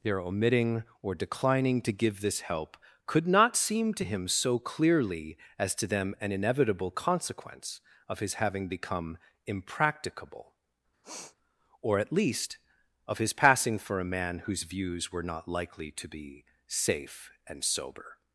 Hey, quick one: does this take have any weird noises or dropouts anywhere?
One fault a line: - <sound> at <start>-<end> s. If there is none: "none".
- sniff at 11.0-11.4 s